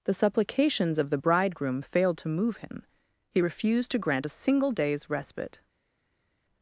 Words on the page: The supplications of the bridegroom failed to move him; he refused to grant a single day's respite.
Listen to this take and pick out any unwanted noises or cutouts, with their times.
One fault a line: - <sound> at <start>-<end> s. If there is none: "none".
none